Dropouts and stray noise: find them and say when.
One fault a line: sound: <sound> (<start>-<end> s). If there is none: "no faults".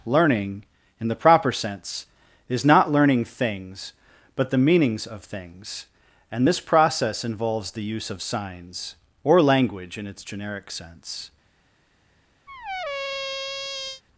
sound: squeak (12.5-14.0 s)